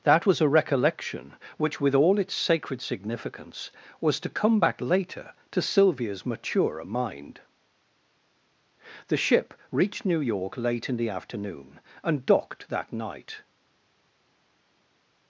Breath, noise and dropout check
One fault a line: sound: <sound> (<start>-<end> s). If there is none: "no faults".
no faults